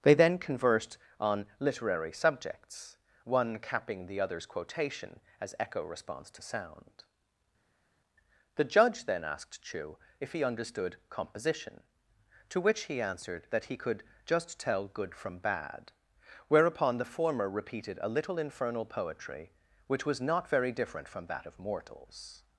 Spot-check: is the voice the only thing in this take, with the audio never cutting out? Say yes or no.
yes